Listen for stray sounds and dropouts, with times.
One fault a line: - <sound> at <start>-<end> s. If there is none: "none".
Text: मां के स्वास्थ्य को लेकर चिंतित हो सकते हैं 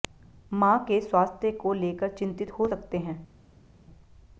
none